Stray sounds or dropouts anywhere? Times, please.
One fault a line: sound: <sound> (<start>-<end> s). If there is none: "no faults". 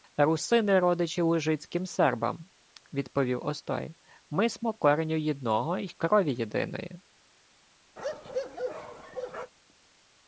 sound: bark (8.0-9.5 s)